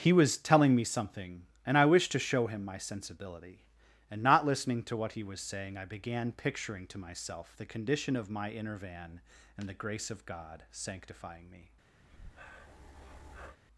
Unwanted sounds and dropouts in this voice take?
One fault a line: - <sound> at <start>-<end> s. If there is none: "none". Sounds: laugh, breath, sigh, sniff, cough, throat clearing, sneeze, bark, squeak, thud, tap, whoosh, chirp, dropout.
- breath at 12.0-13.6 s